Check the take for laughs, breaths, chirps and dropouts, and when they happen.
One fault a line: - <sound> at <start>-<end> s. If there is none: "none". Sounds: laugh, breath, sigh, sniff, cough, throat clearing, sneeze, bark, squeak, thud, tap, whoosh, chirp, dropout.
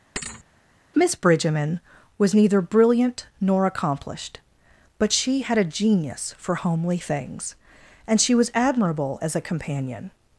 - thud at 0.2-0.4 s